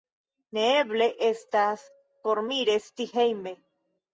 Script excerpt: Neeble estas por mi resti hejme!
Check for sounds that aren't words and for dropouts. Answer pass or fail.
pass